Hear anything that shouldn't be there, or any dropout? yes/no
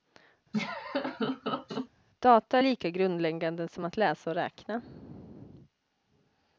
yes